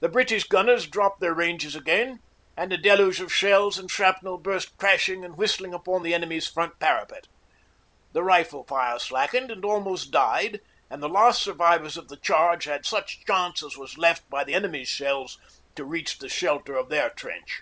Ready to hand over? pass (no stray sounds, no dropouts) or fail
pass